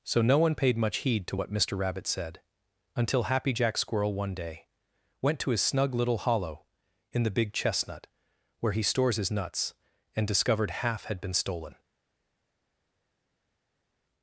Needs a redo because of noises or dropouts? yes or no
no